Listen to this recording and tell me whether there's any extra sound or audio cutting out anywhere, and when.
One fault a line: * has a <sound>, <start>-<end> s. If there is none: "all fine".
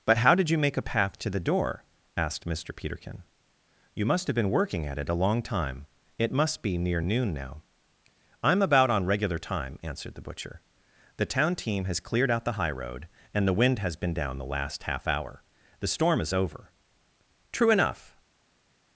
all fine